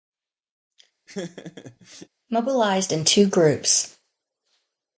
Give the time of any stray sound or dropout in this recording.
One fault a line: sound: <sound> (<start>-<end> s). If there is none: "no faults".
sound: laugh (1.1-2.1 s)